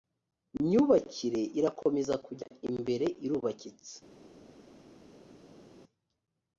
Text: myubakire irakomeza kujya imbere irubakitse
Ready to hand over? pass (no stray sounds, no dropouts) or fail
pass